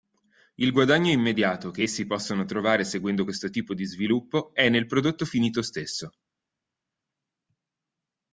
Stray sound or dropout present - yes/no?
no